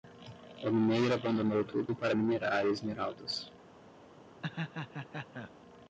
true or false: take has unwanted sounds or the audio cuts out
true